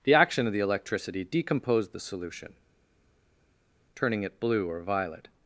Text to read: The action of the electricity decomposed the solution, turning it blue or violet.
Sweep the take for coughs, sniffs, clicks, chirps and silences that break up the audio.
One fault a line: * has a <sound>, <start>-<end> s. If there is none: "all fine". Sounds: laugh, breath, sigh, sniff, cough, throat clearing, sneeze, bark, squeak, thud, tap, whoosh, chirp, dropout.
all fine